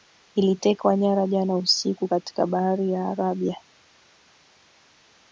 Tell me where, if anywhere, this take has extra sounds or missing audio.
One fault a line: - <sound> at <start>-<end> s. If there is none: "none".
none